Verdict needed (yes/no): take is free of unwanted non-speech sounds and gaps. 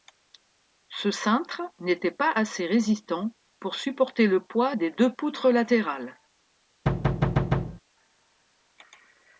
no